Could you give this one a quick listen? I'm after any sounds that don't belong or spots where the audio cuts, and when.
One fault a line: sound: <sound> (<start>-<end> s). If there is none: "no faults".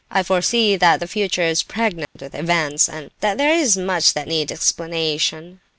sound: dropout (2.0-2.2 s)